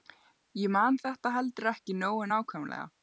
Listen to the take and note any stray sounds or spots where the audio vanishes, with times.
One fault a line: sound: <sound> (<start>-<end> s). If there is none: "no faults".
no faults